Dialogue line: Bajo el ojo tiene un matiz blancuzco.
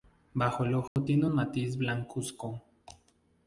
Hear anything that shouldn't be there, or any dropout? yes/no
yes